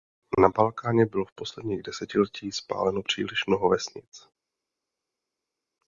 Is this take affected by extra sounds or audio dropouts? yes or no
no